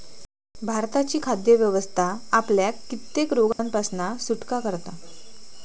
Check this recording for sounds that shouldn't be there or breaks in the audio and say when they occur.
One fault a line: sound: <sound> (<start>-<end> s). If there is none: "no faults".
sound: dropout (3.5-3.6 s)